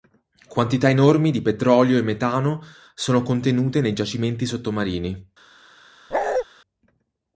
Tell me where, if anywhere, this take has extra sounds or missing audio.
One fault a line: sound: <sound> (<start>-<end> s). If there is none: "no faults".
sound: bark (6.1-6.5 s)